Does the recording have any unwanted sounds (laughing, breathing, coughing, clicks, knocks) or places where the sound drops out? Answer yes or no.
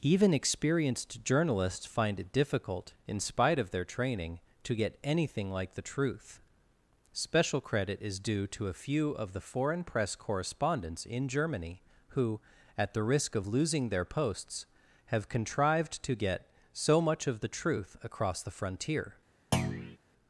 yes